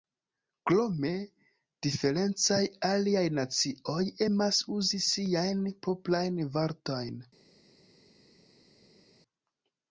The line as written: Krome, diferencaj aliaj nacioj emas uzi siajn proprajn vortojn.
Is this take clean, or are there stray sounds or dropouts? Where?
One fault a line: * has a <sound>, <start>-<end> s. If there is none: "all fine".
all fine